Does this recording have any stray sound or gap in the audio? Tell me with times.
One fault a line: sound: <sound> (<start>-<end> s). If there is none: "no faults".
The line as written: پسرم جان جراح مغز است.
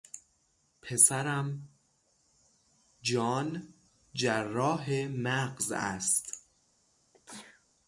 sound: sneeze (7.1-7.7 s)